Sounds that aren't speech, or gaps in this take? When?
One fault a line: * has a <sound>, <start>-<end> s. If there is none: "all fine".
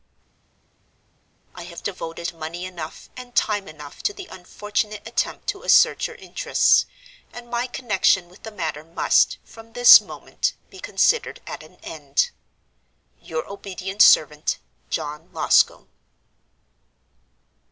all fine